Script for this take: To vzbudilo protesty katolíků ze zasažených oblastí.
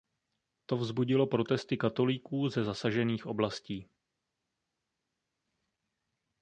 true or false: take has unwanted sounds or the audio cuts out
false